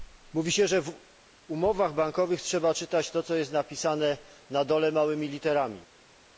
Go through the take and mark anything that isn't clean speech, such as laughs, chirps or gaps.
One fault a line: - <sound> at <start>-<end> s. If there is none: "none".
none